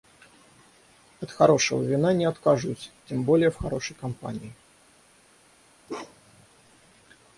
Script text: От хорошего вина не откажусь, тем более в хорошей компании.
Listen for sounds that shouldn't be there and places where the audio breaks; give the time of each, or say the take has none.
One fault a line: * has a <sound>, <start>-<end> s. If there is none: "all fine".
* has a bark, 5.9-6.5 s